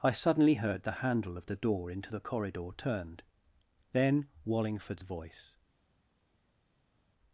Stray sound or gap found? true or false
false